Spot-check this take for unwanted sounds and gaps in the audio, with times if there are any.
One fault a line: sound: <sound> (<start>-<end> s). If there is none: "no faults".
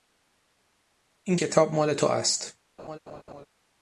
sound: laugh (2.8-3.5 s)